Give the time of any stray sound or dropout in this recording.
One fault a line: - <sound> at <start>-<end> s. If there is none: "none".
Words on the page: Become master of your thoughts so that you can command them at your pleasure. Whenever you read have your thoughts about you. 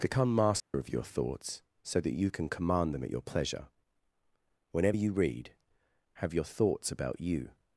- dropout at 0.6-0.7 s